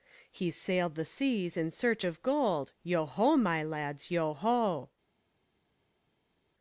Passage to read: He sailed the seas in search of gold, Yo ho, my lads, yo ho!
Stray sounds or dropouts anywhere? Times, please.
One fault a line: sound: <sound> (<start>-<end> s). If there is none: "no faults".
no faults